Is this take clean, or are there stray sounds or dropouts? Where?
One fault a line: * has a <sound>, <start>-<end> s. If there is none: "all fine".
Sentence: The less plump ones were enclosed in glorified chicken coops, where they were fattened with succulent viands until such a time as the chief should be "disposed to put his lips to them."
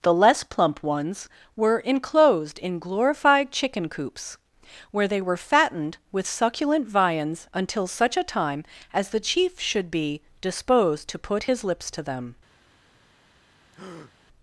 * has a breath, 13.7-14.1 s